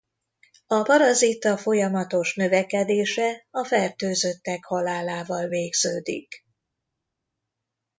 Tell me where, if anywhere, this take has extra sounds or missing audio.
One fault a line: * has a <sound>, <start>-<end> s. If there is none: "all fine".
all fine